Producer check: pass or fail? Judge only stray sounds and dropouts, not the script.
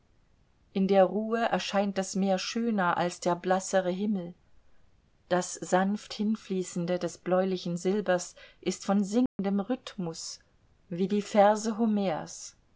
fail